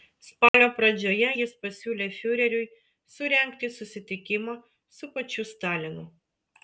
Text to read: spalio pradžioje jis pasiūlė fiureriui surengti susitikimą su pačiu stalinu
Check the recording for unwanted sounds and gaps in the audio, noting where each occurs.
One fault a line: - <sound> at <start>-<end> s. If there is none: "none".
- dropout at 0.5-0.5 s